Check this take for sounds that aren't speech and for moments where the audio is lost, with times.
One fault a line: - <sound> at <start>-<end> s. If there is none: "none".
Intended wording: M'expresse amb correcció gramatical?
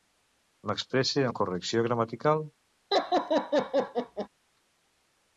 - laugh at 2.9-4.3 s